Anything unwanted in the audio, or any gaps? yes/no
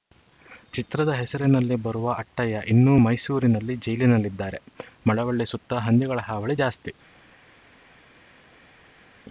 no